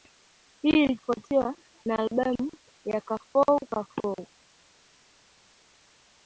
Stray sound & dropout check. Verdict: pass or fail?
pass